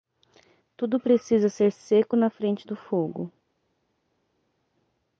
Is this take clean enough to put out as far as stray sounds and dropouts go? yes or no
yes